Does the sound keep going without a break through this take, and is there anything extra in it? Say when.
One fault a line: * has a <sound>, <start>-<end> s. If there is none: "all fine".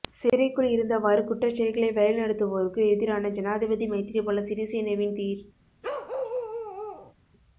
* has a bark, 5.8-7.1 s